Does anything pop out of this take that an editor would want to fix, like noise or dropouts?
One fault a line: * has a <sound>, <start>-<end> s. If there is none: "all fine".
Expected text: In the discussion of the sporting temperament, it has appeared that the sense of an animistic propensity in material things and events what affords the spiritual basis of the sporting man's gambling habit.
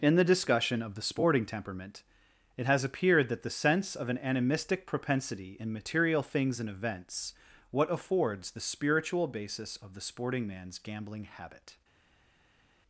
all fine